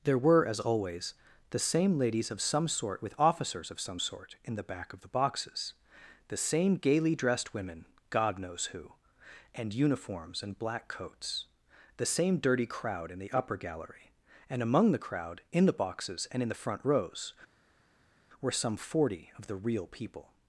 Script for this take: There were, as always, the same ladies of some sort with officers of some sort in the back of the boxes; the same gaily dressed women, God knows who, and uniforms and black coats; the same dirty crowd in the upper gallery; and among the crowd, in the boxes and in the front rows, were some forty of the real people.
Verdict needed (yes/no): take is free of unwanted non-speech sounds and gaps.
yes